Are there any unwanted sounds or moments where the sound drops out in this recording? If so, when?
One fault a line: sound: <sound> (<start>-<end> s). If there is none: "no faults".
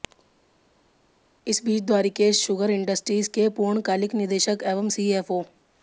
no faults